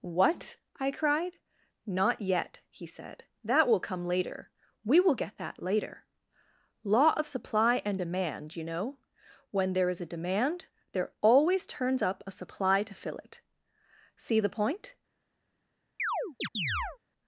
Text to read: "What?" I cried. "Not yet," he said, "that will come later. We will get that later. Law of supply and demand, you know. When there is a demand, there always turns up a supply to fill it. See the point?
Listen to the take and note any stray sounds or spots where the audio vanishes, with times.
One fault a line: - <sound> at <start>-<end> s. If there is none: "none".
- chirp at 16.0-17.0 s